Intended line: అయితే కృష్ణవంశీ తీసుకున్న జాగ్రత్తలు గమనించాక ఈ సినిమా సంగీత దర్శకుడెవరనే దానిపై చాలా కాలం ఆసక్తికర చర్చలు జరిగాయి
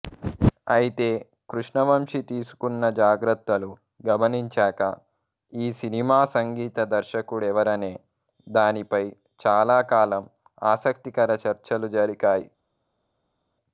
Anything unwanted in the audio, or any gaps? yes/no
no